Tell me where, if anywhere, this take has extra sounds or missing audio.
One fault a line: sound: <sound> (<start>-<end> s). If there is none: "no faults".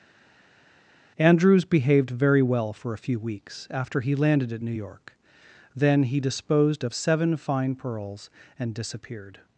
no faults